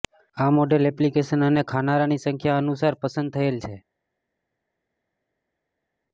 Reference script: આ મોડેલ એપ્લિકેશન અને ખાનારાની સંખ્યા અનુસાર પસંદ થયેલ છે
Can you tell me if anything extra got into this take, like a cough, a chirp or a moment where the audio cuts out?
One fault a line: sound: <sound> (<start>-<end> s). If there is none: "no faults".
no faults